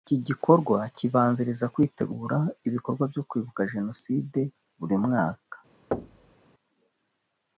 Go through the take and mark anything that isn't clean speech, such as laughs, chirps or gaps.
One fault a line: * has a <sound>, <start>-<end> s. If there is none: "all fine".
* has a thud, 5.9-6.4 s